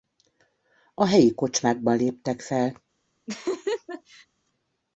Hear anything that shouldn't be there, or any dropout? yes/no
yes